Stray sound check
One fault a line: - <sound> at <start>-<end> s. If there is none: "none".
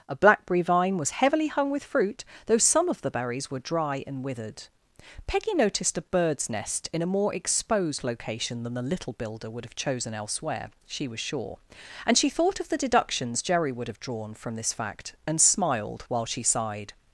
none